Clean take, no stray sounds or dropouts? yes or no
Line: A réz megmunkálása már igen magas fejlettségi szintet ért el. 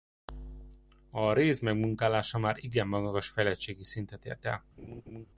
no